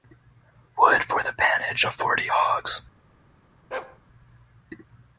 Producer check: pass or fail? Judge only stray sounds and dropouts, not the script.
fail